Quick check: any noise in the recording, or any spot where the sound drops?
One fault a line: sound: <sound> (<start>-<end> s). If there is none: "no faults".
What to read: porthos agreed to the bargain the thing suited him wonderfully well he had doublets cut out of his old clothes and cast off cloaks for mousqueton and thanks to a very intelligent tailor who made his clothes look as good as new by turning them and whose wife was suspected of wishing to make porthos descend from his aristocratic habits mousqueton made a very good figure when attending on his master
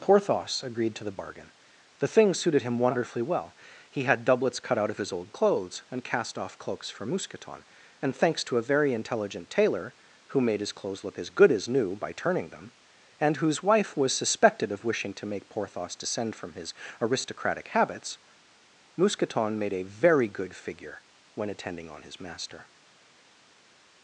no faults